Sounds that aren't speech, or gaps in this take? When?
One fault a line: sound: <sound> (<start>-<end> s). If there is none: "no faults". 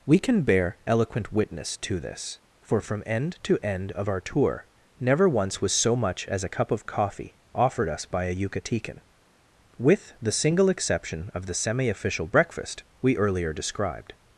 no faults